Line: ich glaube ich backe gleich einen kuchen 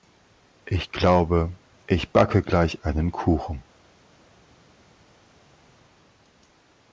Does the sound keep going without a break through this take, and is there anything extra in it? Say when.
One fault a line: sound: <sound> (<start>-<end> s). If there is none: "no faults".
no faults